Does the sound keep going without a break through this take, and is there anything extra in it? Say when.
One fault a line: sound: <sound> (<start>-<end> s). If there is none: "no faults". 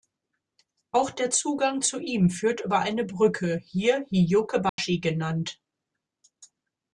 sound: dropout (4.7-4.8 s)